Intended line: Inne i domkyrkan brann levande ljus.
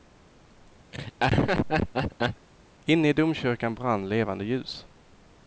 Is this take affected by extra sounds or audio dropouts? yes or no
yes